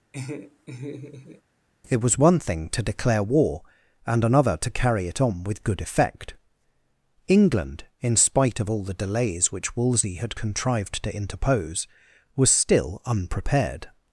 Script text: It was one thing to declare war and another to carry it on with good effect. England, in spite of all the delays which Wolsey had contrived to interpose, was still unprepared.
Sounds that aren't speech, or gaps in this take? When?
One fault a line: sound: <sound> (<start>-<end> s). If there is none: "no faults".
sound: laugh (0.1-1.4 s)